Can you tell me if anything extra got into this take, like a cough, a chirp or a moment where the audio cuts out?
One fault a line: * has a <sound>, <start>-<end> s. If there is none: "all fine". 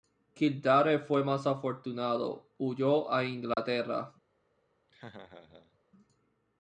* has a dropout, 3.5-3.6 s
* has a laugh, 4.9-5.8 s